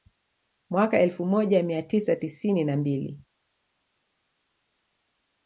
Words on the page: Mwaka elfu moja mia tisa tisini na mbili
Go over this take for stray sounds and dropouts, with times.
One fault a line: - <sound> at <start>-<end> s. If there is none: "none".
none